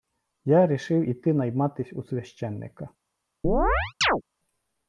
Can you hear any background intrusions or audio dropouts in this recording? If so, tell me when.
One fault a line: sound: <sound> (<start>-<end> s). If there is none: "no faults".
sound: chirp (3.4-4.2 s)